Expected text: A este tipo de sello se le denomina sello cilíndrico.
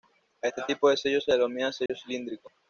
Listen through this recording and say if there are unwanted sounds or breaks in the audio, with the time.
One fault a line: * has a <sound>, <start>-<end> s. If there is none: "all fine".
* has a dropout, 1.9-1.9 s